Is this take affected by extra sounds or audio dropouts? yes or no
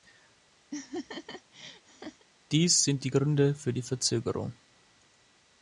yes